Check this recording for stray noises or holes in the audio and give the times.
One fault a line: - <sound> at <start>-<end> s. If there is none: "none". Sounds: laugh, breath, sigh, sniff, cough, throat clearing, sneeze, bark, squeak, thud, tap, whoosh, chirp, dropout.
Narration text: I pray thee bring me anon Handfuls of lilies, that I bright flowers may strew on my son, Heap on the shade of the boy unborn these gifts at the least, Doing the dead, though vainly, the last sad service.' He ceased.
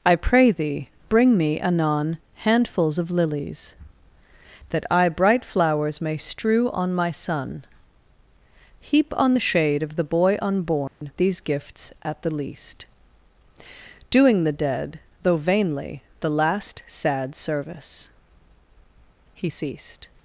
- dropout at 10.9-11.0 s